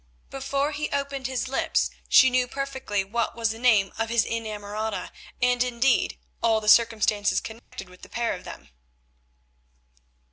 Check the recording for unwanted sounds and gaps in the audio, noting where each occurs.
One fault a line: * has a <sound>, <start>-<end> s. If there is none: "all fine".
* has a dropout, 7.6-7.7 s